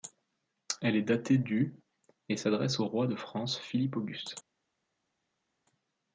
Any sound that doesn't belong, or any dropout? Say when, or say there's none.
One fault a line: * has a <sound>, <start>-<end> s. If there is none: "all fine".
all fine